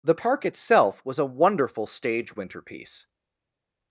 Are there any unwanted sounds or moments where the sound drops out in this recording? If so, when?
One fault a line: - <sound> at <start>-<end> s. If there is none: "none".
none